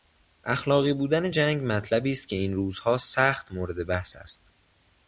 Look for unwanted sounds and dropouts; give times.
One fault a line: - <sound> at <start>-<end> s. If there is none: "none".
none